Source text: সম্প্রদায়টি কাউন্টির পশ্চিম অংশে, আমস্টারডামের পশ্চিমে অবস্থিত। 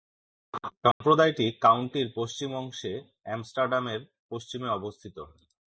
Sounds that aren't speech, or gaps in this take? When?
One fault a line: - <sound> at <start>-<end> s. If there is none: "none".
- dropout at 0.9-1.0 s